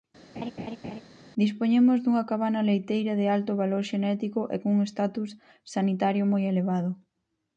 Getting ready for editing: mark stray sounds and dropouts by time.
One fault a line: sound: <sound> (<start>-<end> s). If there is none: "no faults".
sound: laugh (0.3-1.0 s)